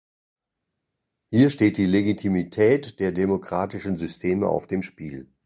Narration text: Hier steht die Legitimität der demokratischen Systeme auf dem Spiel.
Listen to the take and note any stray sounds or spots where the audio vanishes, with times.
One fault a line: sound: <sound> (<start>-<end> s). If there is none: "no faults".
no faults